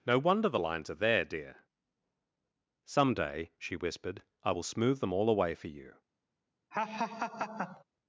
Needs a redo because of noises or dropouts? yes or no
yes